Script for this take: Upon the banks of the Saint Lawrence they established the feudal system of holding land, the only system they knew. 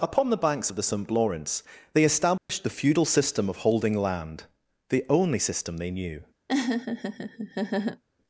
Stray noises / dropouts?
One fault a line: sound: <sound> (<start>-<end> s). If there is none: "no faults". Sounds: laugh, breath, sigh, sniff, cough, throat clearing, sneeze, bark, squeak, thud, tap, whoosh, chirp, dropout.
sound: dropout (2.4-2.5 s)
sound: laugh (6.5-8.0 s)